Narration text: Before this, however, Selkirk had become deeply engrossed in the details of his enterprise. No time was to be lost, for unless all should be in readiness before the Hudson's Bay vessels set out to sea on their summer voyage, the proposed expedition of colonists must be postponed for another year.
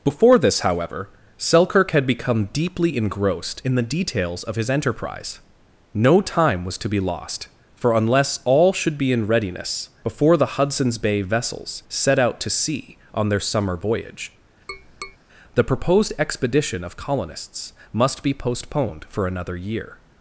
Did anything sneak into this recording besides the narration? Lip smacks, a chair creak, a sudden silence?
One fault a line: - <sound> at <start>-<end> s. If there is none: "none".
- tap at 14.7-15.2 s